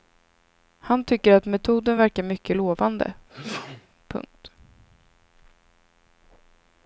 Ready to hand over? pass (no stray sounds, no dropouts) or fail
fail